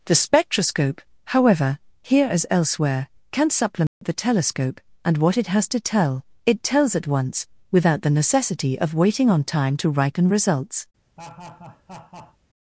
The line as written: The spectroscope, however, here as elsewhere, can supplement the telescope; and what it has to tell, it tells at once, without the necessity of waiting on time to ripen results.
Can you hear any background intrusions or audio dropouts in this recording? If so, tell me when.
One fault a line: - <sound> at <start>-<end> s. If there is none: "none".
- dropout at 3.9-4.0 s
- laugh at 11.2-12.4 s